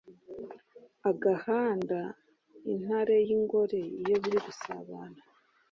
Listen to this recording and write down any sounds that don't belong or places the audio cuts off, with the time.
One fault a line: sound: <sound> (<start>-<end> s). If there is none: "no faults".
no faults